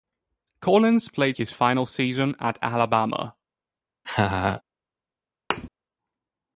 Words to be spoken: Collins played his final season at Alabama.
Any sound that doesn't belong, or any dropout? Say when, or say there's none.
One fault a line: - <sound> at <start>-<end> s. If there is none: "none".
- laugh at 4.0-4.6 s
- thud at 5.5-5.7 s